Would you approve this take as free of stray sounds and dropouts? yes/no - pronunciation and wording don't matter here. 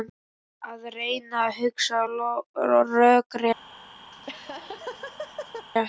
no